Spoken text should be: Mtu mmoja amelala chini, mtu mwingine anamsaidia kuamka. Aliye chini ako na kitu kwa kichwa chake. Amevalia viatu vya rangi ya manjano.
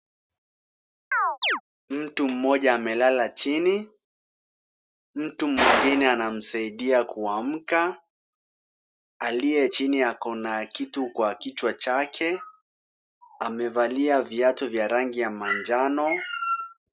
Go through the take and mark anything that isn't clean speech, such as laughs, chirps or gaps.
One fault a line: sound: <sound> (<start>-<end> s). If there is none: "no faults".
sound: chirp (1.1-1.6 s)